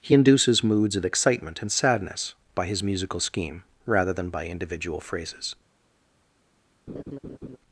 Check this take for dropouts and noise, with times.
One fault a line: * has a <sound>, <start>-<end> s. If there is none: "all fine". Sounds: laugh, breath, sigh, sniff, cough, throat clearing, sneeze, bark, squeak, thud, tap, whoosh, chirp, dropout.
* has a laugh, 6.9-7.6 s